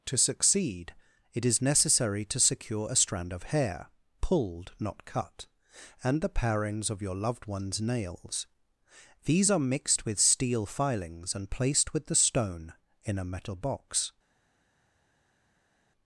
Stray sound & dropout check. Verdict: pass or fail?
pass